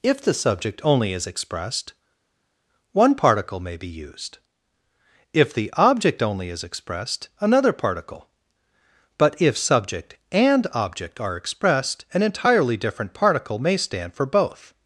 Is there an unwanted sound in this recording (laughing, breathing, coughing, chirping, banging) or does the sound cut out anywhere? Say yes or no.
no